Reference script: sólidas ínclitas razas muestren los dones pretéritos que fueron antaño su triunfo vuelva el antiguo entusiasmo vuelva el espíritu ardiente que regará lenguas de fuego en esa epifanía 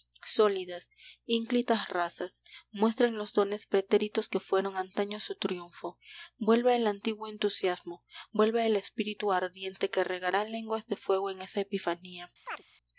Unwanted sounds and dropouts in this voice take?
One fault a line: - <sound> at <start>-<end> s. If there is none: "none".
- chirp at 12.5-12.6 s